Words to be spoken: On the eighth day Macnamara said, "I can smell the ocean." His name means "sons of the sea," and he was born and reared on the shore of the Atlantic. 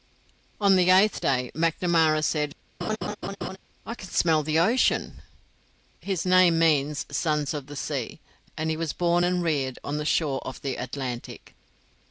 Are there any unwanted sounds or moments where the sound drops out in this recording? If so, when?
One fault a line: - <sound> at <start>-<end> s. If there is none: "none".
- laugh at 2.8-3.6 s